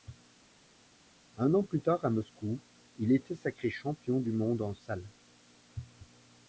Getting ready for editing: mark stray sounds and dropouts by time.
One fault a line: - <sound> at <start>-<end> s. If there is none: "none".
none